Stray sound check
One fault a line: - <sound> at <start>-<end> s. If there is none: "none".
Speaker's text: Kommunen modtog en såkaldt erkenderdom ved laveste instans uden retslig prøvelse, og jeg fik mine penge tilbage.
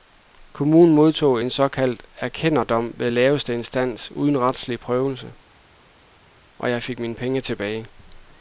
none